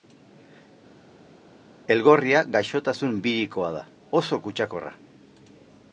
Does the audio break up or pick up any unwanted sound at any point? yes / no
no